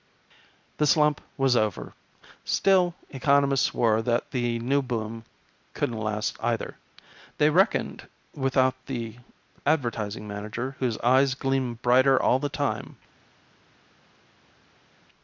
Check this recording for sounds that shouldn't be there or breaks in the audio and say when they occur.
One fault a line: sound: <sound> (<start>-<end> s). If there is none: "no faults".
no faults